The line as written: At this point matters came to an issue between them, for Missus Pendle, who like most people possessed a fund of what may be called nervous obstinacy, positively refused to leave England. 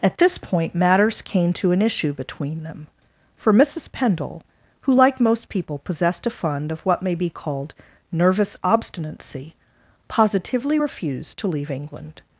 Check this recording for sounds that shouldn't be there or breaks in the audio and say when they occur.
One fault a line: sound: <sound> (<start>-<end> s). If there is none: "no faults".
no faults